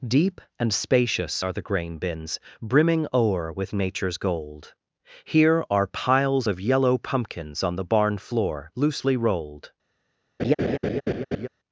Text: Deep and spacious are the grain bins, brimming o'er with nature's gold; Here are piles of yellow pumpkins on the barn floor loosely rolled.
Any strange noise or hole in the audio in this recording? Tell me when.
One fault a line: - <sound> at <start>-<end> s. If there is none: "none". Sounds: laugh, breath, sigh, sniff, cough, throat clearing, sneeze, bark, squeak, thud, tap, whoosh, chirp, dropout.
- laugh at 10.4-11.5 s